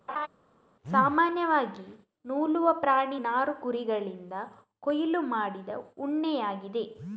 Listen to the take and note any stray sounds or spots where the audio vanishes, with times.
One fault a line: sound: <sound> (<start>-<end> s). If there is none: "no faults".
sound: laugh (0.1-0.3 s)